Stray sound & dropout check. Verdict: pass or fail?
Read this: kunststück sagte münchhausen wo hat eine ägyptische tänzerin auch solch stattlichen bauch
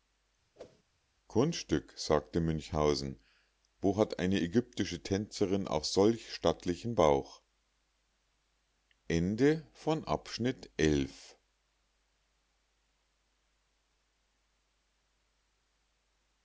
fail